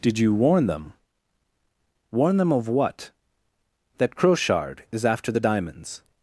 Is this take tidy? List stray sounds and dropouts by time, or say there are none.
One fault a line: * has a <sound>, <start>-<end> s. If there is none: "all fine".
all fine